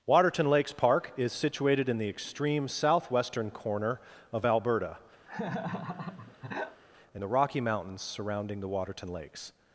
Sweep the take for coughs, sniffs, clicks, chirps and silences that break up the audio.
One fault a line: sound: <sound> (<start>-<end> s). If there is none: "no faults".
sound: laugh (5.3-6.8 s)